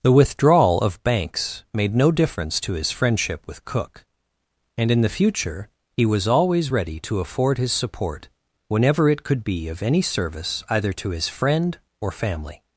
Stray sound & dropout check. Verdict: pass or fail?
pass